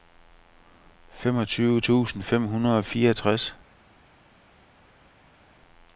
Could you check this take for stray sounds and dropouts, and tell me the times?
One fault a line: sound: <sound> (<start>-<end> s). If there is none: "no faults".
no faults